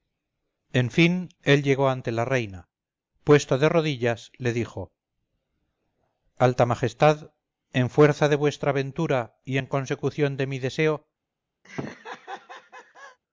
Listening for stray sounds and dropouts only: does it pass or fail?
fail